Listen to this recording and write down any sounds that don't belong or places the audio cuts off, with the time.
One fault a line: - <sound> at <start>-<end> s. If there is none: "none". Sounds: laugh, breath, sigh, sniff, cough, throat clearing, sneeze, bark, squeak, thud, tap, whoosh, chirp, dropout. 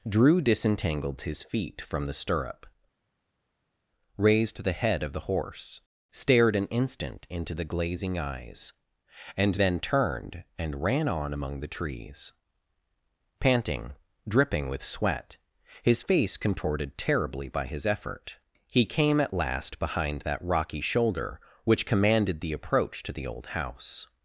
none